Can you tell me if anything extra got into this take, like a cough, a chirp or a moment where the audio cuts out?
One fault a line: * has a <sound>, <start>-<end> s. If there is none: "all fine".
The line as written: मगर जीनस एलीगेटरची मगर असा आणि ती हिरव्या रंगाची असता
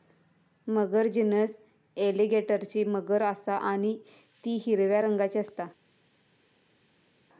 all fine